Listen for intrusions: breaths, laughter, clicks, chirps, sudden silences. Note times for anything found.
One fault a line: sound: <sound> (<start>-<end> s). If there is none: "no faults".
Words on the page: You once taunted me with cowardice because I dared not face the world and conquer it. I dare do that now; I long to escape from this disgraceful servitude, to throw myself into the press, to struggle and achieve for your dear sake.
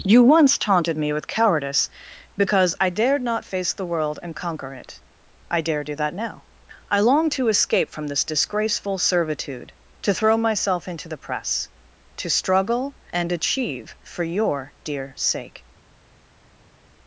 no faults